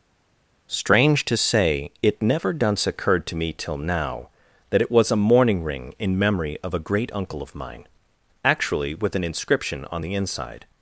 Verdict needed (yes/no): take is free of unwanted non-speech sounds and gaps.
yes